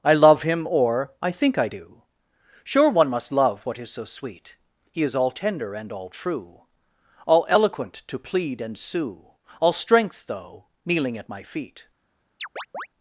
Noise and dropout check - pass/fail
fail